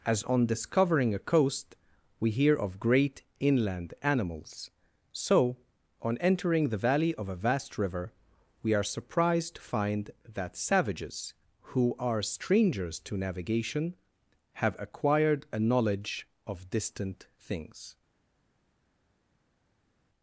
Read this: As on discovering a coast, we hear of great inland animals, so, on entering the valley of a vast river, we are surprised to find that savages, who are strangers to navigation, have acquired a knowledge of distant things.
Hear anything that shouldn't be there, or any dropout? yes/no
no